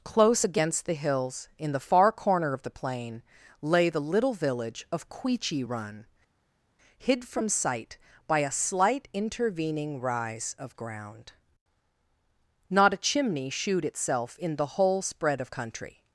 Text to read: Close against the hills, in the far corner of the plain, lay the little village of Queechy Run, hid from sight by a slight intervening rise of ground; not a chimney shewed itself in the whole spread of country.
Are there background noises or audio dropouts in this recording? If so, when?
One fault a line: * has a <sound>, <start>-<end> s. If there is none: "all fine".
all fine